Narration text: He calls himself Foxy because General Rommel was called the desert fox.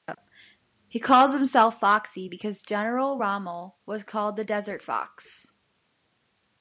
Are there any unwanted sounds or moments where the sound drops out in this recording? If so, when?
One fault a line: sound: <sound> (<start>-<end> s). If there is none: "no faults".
no faults